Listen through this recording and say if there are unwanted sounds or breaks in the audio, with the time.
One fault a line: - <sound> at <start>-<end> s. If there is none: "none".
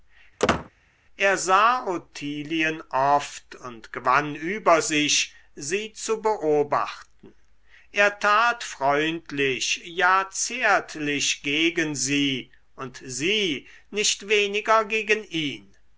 - squeak at 0.4-0.7 s